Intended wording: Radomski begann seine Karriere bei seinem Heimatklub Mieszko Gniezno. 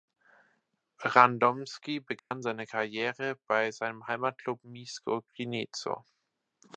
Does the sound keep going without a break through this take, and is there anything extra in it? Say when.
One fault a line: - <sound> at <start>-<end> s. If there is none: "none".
- dropout at 2.2-2.3 s